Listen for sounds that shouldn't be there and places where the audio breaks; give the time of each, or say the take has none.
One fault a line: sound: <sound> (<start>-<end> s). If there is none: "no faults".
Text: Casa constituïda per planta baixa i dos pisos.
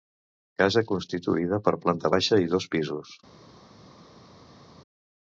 no faults